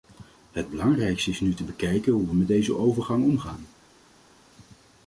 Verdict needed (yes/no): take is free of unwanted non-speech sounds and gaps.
yes